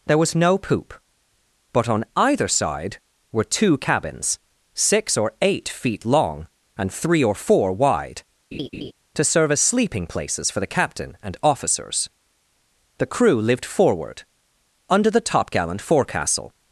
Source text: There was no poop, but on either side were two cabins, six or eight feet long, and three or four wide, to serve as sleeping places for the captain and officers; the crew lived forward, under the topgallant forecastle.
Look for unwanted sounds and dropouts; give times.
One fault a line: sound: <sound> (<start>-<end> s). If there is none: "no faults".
sound: laugh (8.5-8.9 s)